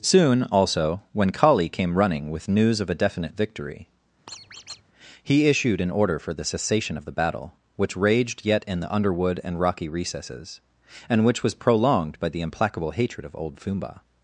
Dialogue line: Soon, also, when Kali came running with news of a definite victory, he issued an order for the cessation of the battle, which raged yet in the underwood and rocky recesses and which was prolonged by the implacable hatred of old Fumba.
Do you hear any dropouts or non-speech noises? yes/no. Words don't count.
yes